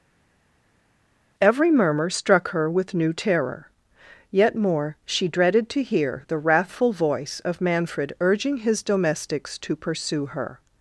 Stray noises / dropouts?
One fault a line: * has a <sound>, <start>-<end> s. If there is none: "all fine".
all fine